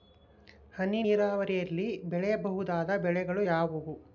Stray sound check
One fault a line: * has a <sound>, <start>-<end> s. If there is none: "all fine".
all fine